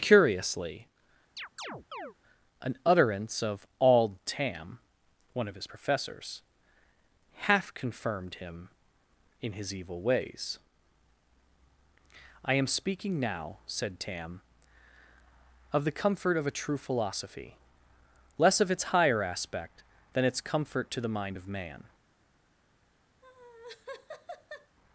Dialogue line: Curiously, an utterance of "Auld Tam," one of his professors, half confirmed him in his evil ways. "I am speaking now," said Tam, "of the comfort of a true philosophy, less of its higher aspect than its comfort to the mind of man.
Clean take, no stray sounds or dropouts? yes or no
no